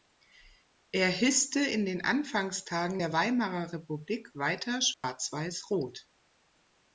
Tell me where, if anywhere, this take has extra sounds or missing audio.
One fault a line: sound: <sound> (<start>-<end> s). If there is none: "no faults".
sound: dropout (4.9-5.0 s)